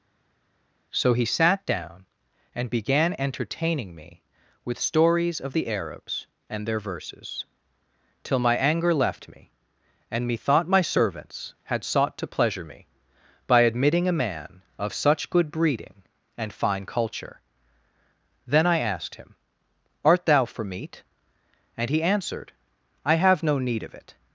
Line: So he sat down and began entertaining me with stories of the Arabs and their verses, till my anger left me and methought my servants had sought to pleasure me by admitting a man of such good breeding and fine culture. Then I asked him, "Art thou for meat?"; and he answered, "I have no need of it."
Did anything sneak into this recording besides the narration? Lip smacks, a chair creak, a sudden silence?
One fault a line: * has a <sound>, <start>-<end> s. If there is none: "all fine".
all fine